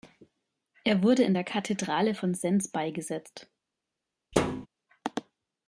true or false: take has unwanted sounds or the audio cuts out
true